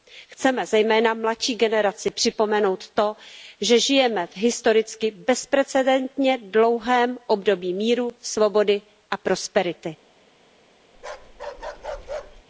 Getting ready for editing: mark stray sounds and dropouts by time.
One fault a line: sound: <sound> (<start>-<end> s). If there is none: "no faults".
sound: bark (10.9-12.4 s)